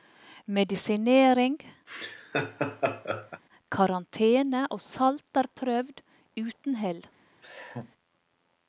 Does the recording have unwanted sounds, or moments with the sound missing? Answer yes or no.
yes